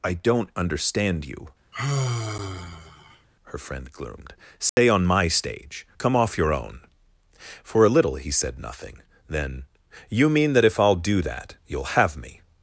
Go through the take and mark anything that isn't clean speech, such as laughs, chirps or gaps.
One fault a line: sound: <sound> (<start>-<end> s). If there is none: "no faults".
sound: sigh (1.7-3.3 s)
sound: dropout (4.7-4.8 s)